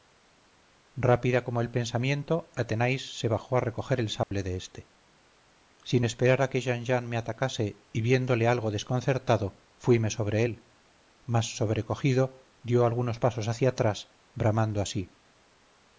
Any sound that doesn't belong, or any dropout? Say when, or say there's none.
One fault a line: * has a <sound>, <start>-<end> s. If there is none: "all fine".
* has a dropout, 4.2-4.3 s